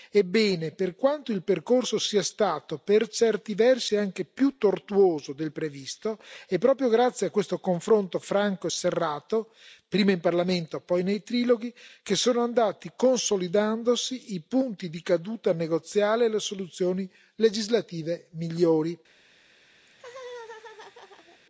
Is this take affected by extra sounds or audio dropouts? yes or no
yes